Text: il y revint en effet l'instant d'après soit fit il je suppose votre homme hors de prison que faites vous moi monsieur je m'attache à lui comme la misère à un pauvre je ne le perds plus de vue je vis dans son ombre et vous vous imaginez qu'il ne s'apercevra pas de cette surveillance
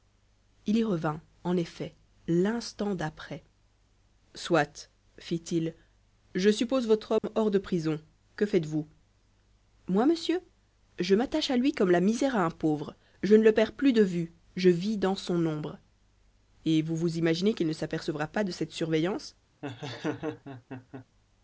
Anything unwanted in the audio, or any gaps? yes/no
yes